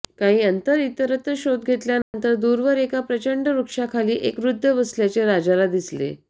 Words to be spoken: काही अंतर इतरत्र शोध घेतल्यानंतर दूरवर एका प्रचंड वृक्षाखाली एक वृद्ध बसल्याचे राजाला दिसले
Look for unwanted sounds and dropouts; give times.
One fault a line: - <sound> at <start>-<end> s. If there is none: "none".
- dropout at 2.0-2.1 s